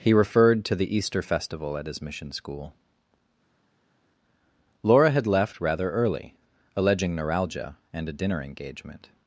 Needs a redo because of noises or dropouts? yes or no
no